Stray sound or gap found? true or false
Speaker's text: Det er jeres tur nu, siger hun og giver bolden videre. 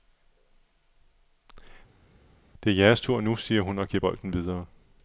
false